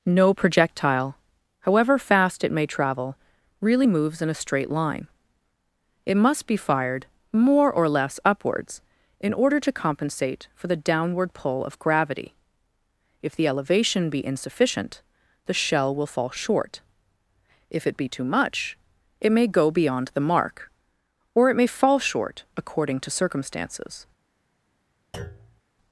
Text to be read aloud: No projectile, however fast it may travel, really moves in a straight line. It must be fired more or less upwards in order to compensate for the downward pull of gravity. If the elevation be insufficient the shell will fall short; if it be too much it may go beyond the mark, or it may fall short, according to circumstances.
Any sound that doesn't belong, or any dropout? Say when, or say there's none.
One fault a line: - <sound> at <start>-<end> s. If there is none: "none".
- thud at 25.1-25.6 s